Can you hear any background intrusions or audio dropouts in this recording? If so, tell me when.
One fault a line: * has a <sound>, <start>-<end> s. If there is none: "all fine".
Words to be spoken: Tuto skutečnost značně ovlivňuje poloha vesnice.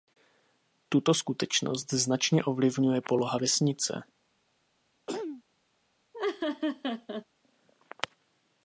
* has a throat clearing, 5.1-5.4 s
* has a laugh, 6.1-7.3 s